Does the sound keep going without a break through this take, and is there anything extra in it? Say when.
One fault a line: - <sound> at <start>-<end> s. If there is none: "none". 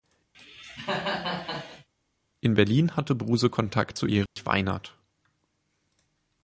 - cough at 0.3-1.9 s
- dropout at 4.3-4.4 s